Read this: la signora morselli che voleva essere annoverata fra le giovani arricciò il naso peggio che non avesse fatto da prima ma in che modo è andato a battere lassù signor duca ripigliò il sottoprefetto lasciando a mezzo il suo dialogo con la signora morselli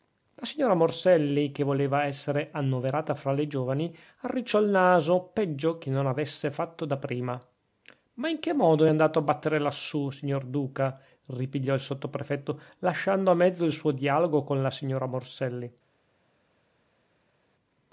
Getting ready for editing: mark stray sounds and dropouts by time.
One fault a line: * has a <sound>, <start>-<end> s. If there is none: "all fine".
all fine